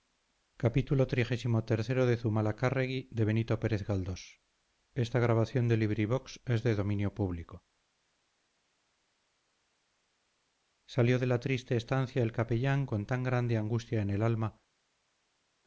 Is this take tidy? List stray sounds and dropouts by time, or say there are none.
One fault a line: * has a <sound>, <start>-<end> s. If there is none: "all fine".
all fine